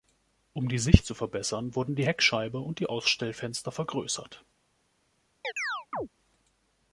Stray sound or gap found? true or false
true